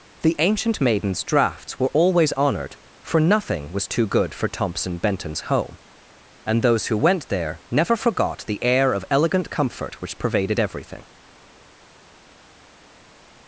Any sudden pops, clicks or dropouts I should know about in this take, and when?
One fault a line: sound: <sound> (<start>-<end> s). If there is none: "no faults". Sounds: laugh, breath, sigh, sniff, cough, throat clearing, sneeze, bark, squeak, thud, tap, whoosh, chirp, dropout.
no faults